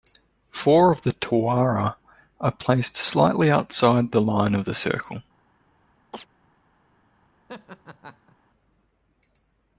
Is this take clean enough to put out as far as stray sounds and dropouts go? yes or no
no